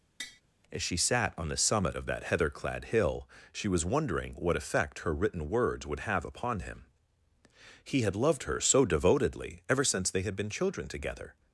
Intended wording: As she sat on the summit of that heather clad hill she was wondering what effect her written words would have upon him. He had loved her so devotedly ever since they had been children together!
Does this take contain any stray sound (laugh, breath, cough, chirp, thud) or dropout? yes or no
yes